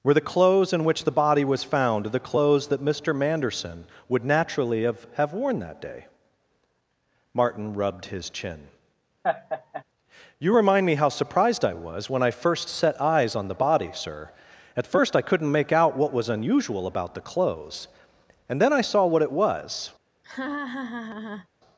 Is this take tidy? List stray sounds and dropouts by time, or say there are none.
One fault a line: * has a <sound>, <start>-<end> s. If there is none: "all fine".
* has a laugh, 9.2-9.8 s
* has a laugh, 20.2-21.5 s